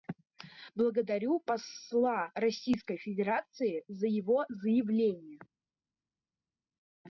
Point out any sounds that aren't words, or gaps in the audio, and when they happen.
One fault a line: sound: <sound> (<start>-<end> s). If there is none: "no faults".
no faults